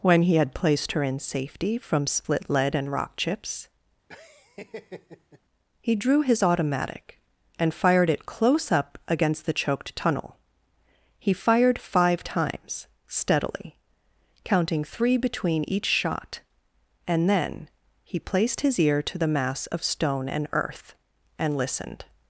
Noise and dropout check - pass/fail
fail